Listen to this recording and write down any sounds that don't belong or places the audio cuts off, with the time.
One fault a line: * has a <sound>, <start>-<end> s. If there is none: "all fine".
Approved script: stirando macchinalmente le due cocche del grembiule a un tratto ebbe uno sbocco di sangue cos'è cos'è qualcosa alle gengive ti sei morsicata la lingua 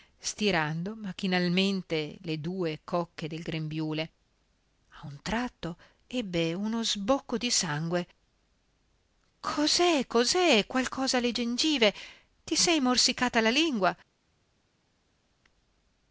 all fine